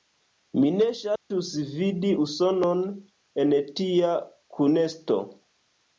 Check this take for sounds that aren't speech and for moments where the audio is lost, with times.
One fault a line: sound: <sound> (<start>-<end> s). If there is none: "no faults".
sound: dropout (1.2-1.3 s)